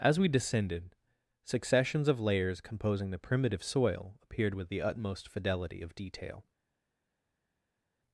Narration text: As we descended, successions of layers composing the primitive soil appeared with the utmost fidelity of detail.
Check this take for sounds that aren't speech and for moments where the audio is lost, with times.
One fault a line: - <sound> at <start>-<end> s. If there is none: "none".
none